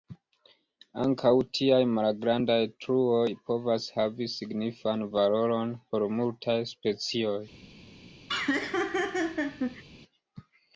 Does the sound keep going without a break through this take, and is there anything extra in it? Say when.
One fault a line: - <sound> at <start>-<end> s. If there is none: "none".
- laugh at 8.3-9.8 s